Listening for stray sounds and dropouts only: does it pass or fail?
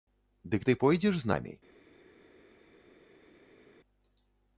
pass